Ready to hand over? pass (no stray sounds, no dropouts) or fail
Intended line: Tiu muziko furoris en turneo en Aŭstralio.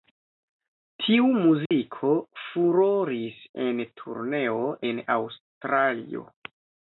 fail